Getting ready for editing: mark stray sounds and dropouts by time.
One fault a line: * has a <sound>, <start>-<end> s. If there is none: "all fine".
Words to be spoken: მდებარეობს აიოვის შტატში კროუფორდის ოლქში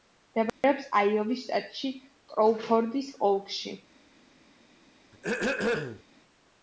* has a dropout, 0.5-0.6 s
* has a throat clearing, 5.1-6.0 s